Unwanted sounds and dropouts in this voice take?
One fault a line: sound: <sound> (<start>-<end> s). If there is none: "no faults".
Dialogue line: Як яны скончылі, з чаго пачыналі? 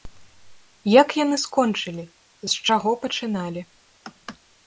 no faults